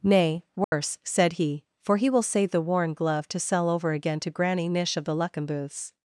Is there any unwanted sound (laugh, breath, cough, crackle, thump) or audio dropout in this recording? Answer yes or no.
yes